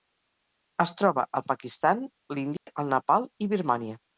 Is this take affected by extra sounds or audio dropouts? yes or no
yes